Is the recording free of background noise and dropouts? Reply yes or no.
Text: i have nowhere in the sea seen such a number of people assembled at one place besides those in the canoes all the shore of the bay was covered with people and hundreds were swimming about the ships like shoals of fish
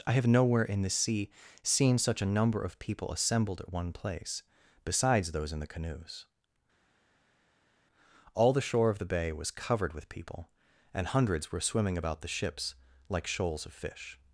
yes